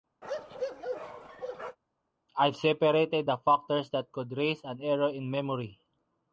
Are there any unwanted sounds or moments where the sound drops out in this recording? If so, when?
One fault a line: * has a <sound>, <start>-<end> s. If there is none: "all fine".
* has a bark, 0.2-1.8 s